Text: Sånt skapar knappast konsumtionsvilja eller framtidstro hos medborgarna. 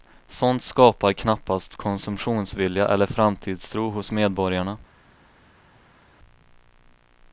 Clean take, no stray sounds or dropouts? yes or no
yes